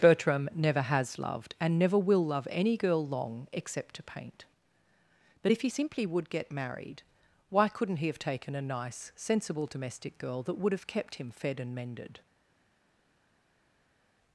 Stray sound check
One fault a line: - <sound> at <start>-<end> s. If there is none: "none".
none